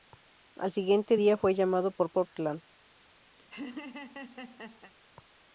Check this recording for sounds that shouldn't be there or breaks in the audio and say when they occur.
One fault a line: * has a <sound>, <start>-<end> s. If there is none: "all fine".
* has a laugh, 3.4-4.9 s